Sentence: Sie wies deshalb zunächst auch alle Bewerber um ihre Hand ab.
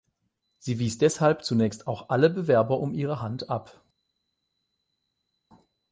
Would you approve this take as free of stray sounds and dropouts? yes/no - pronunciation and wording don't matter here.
yes